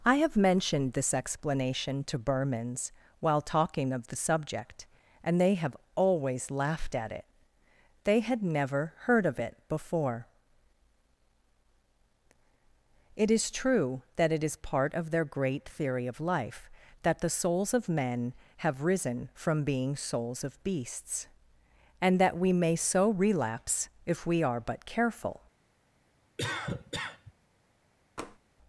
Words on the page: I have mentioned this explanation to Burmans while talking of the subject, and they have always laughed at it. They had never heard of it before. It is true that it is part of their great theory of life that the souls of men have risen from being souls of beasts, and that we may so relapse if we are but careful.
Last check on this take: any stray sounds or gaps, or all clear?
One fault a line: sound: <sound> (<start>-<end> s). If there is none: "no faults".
sound: cough (26.4-27.3 s)
sound: tap (28.2-28.4 s)